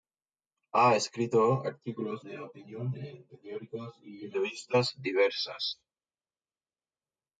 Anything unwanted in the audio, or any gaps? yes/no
no